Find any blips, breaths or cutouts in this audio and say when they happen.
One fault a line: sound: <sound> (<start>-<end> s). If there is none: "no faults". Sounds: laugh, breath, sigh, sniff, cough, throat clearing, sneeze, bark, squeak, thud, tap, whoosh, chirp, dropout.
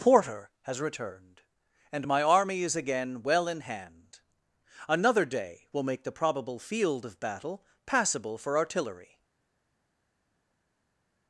no faults